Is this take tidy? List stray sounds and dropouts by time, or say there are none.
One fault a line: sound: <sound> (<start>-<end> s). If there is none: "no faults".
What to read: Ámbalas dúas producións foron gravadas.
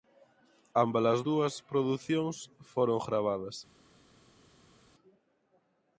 no faults